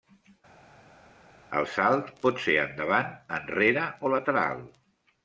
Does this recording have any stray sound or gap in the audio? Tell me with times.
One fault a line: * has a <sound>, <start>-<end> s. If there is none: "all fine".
all fine